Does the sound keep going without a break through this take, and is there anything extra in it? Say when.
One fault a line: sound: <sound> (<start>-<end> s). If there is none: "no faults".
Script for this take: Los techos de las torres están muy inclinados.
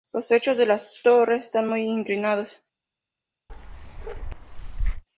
sound: bark (3.5-5.0 s)